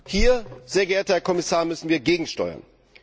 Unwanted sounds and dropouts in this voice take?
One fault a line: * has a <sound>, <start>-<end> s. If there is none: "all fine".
all fine